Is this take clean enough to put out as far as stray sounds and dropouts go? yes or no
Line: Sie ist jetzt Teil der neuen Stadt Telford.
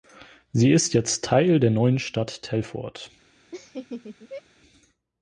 no